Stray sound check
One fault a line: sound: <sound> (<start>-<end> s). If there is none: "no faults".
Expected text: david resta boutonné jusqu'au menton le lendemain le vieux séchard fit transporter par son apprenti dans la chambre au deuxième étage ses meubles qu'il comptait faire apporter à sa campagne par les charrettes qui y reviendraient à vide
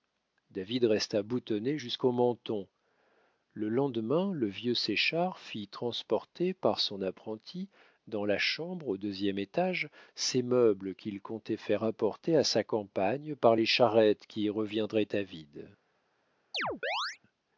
sound: chirp (16.5-17.2 s)